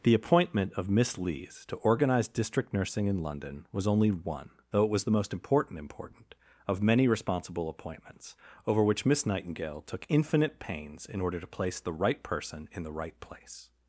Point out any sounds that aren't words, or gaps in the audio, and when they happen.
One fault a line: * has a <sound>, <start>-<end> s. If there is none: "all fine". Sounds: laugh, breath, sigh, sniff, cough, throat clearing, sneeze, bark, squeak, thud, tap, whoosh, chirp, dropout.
all fine